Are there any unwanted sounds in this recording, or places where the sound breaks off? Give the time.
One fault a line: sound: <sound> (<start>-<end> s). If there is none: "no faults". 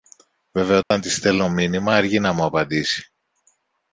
sound: dropout (0.8-0.9 s)